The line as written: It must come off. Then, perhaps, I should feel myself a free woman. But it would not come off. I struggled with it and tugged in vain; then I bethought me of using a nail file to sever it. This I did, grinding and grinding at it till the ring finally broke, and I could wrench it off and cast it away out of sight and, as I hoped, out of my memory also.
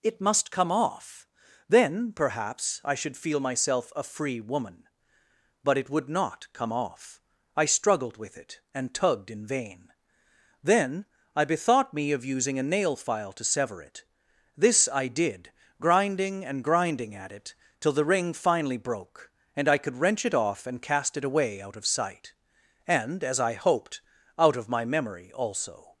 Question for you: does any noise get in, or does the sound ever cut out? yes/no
no